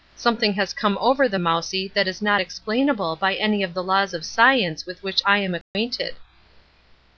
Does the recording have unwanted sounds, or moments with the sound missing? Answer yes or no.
yes